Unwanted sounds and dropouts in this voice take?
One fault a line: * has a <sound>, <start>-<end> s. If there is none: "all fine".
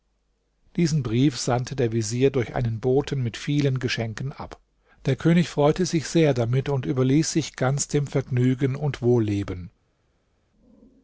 all fine